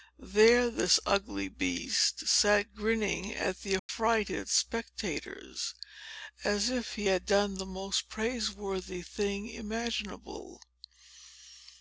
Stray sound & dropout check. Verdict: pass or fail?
fail